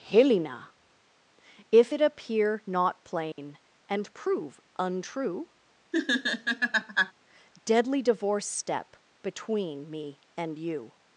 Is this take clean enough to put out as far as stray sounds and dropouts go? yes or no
no